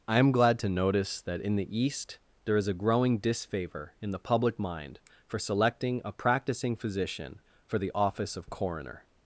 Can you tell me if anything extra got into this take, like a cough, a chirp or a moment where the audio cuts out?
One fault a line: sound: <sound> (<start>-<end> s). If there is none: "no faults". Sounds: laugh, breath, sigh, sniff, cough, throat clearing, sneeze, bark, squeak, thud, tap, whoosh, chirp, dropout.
no faults